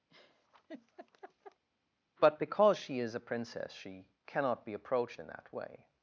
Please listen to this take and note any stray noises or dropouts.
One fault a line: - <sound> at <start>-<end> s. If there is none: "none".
- laugh at 0.1-1.6 s